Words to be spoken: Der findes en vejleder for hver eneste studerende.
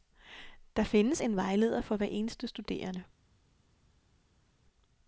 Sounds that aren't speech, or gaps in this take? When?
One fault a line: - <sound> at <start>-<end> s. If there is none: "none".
none